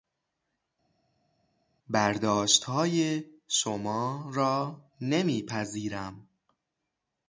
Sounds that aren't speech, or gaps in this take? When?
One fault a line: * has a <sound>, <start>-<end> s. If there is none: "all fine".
all fine